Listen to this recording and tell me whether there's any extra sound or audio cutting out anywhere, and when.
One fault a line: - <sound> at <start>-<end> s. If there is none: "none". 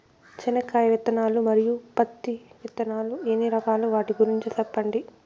none